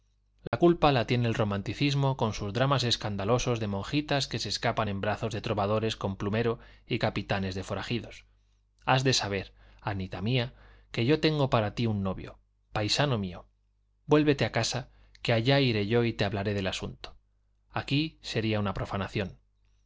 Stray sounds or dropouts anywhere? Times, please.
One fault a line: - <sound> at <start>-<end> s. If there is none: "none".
- dropout at 0.5-0.5 s